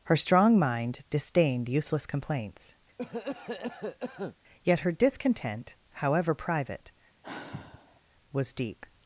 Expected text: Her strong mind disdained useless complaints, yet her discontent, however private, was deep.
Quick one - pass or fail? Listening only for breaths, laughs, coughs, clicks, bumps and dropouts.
fail